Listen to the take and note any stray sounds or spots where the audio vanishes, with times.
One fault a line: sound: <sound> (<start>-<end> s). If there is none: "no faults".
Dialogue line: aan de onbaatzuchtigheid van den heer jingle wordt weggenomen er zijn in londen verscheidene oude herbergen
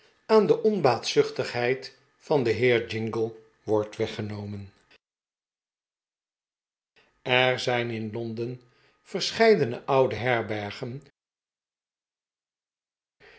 no faults